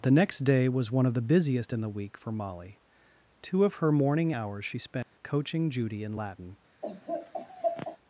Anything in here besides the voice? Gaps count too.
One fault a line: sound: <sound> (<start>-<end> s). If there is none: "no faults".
sound: dropout (5.0-5.2 s)
sound: laugh (6.8-8.0 s)